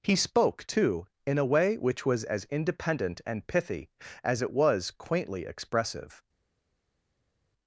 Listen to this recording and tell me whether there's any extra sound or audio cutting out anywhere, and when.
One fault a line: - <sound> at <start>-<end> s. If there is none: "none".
none